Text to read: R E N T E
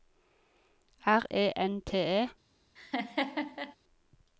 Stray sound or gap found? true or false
true